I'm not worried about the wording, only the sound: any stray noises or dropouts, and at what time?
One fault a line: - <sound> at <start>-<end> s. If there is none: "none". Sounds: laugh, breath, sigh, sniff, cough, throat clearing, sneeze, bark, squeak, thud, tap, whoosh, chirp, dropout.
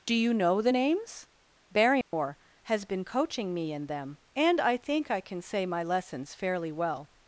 - dropout at 2.0-2.1 s